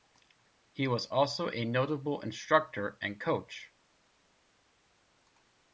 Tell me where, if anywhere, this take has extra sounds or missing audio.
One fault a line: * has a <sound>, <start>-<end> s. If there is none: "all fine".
all fine